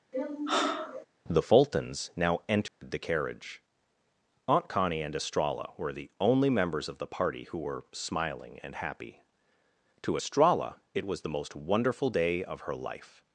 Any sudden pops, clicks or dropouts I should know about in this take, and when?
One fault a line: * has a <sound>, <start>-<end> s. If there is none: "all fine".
* has a sigh, 0.1-1.1 s
* has a dropout, 2.7-2.8 s